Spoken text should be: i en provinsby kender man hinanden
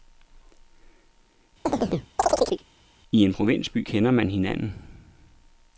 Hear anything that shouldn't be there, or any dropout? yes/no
yes